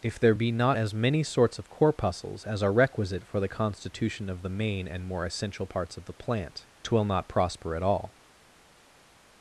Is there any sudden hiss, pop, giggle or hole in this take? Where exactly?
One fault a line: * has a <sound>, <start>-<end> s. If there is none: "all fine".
all fine